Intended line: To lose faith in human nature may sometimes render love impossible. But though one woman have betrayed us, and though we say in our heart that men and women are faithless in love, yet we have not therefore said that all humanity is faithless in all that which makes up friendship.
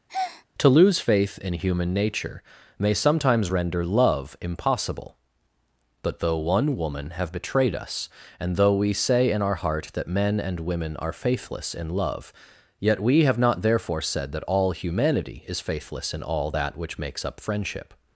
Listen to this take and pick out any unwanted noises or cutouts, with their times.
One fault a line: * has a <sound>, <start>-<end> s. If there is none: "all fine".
* has a breath, 0.1-0.5 s